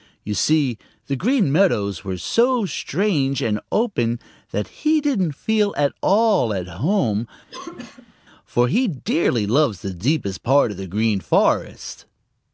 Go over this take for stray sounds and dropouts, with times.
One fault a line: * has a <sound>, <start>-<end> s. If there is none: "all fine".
* has a cough, 7.5-8.1 s